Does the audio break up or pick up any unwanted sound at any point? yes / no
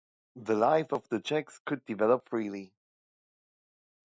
no